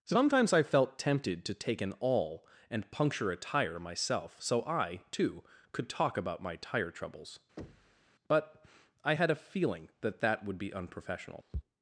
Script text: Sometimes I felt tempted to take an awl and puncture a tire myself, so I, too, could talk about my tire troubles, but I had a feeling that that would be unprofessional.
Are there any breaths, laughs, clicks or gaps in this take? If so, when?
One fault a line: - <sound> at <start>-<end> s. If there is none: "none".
- thud at 7.6-8.1 s